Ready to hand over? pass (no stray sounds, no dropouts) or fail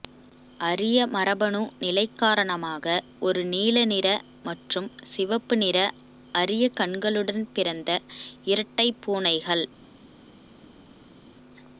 pass